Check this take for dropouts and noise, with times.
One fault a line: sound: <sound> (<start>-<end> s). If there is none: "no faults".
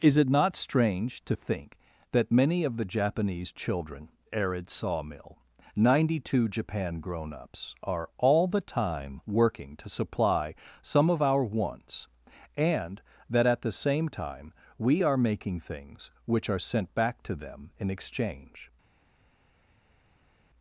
no faults